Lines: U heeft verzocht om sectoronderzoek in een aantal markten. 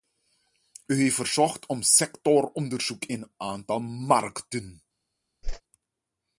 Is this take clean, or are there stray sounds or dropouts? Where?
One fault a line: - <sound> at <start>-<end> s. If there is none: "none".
- whoosh at 5.4-5.6 s